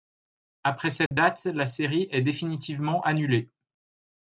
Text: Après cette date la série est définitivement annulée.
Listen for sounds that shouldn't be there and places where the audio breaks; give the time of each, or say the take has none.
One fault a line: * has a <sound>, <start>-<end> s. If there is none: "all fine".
* has a dropout, 1.1-1.1 s